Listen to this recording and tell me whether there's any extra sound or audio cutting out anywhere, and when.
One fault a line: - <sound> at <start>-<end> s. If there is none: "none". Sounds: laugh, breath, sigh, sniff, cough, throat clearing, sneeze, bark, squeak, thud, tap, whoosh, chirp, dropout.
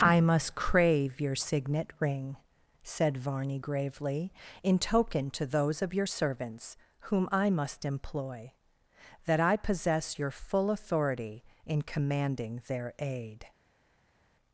none